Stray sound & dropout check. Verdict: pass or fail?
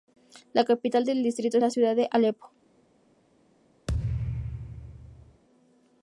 fail